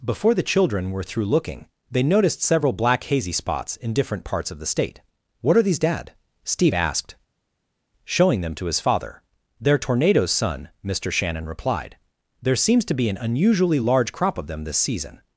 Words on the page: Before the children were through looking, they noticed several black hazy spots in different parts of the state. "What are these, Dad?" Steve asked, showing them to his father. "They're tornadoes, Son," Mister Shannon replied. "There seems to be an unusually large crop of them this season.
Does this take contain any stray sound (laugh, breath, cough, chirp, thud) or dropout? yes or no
no